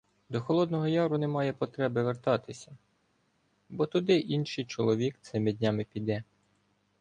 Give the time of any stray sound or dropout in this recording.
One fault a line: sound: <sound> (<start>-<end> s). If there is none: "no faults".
no faults